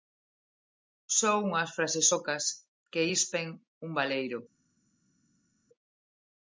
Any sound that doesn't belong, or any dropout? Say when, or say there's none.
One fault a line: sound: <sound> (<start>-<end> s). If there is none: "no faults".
no faults